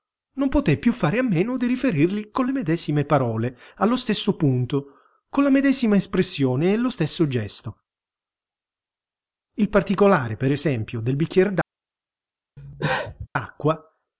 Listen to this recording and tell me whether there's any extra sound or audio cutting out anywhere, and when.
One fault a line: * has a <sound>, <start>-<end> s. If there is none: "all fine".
* has a cough, 12.6-13.3 s